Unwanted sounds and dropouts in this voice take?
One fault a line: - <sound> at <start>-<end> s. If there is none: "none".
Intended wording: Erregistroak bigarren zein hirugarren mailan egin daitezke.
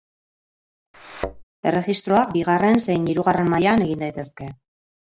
- thud at 0.9-1.4 s